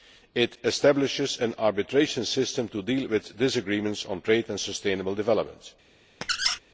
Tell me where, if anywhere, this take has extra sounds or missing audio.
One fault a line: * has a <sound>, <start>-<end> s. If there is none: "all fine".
* has a squeak, 6.2-6.6 s